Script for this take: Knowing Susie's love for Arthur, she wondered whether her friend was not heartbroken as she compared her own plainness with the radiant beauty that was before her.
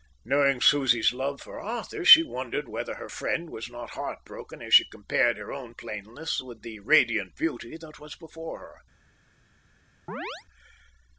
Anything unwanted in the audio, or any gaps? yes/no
yes